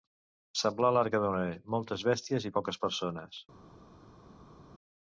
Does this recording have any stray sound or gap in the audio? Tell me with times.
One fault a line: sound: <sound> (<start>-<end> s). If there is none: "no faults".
no faults